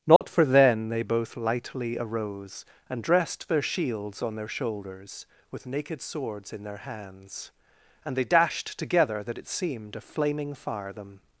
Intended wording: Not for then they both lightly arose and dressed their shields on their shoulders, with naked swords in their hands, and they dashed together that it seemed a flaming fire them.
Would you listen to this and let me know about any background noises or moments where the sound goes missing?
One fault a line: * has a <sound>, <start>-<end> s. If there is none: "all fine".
* has a dropout, 0.2-0.2 s